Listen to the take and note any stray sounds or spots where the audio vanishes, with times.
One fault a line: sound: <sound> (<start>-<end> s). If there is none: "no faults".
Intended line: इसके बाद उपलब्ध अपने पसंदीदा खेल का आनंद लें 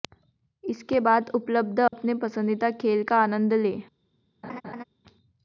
sound: dropout (1.9-1.9 s)
sound: laugh (4.4-4.8 s)